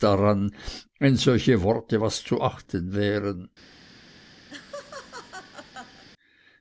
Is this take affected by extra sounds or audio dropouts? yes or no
yes